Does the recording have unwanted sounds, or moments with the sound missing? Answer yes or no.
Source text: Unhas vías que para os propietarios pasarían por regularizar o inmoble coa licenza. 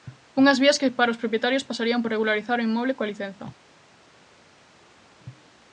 no